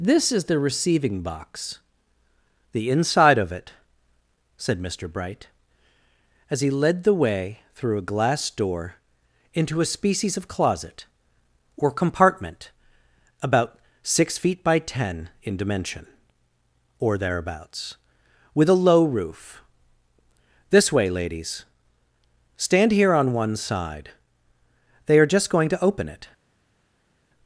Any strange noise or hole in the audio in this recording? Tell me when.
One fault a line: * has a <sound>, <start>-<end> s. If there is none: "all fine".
all fine